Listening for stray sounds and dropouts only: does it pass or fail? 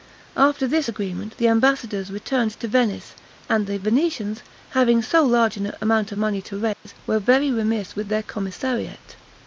fail